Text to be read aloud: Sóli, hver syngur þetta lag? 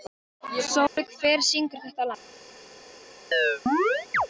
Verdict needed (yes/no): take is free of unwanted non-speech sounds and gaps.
no